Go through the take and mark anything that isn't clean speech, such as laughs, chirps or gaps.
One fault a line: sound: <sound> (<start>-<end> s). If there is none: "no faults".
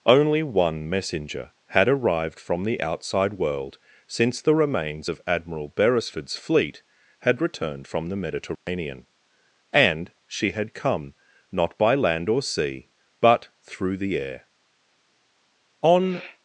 sound: dropout (8.6-8.7 s)